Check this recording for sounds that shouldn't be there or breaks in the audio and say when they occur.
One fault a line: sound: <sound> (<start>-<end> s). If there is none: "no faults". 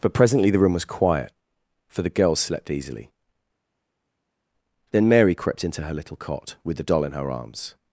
no faults